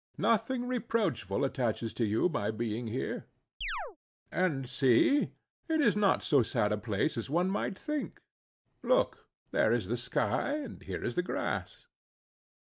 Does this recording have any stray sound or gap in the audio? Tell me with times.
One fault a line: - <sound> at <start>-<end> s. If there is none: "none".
- chirp at 3.6-4.0 s